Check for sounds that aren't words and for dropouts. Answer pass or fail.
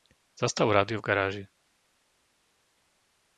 pass